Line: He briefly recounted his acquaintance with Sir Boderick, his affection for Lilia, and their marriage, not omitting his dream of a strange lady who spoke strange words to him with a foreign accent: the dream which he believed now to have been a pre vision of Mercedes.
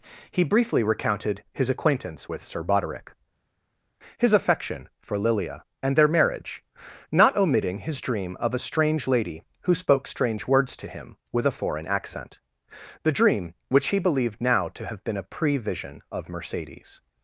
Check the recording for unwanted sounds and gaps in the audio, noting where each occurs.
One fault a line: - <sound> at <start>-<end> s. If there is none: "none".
none